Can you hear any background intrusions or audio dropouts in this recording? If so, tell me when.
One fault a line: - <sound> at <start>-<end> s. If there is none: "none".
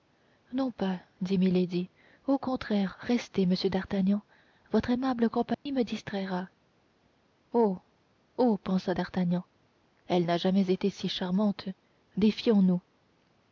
- dropout at 5.5-5.7 s